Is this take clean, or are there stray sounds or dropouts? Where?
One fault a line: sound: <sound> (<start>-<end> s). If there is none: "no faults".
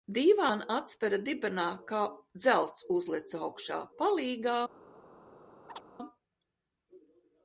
sound: chirp (5.7-5.8 s)